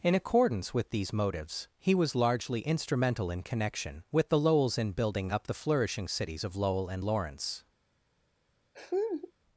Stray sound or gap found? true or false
true